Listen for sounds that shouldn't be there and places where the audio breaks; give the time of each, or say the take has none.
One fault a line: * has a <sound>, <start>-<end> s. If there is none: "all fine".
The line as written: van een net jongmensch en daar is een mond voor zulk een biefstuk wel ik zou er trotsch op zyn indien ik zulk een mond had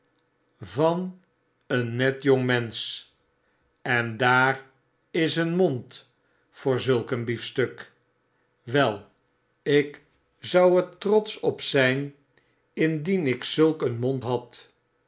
all fine